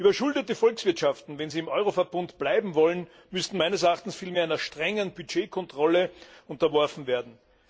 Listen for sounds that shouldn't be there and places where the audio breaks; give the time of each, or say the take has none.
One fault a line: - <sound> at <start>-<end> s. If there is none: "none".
none